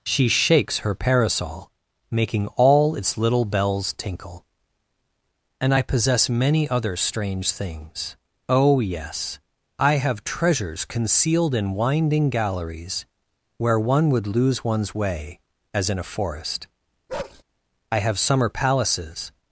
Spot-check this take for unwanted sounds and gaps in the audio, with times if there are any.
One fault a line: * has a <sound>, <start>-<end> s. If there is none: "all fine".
* has a bark, 17.1-17.4 s